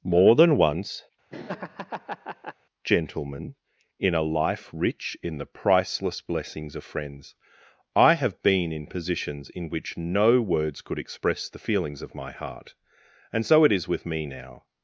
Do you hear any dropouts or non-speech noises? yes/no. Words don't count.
yes